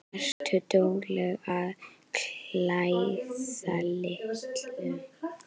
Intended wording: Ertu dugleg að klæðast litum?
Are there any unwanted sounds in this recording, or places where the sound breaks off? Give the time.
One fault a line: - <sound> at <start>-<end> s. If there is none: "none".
- dropout at 0.3-0.4 s